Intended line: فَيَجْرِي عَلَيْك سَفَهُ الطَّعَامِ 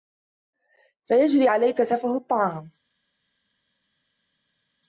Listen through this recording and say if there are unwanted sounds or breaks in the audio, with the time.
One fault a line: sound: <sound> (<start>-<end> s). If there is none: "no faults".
no faults